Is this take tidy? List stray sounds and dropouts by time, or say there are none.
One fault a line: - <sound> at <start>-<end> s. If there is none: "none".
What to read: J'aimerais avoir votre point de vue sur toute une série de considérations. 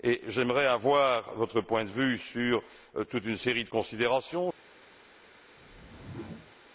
- whoosh at 5.6-6.6 s